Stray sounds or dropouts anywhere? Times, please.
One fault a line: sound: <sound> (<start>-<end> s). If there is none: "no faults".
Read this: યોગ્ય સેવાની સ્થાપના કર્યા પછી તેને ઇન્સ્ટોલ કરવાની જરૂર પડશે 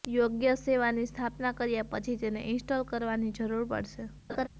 sound: laugh (4.3-4.5 s)